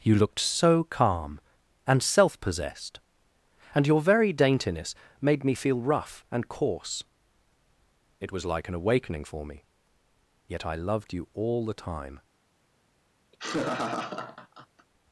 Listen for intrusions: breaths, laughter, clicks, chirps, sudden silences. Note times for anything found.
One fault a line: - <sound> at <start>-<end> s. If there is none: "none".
- laugh at 13.3-14.9 s